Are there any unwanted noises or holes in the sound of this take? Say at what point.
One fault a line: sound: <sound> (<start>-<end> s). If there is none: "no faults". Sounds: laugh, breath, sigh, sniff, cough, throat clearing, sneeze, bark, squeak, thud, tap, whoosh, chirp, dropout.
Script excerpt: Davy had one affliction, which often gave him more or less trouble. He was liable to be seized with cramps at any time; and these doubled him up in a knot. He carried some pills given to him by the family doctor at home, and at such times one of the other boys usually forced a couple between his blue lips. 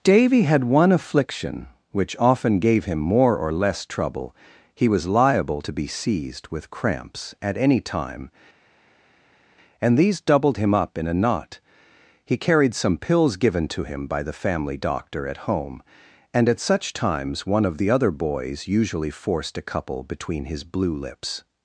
no faults